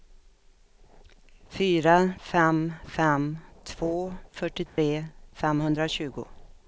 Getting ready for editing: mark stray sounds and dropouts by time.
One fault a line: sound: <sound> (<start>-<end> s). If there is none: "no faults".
sound: dropout (4.7-4.8 s)